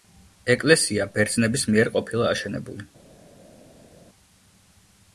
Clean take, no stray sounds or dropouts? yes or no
yes